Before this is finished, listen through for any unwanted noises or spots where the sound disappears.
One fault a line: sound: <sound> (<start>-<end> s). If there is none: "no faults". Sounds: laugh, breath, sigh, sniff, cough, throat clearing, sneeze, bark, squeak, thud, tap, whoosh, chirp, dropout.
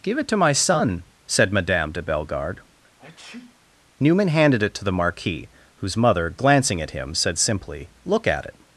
sound: sneeze (3.0-3.6 s)